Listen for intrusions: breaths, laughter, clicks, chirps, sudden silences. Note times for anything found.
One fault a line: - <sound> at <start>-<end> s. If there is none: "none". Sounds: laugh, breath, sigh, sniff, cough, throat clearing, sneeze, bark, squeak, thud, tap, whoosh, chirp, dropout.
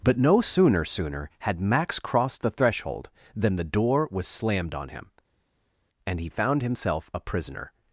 none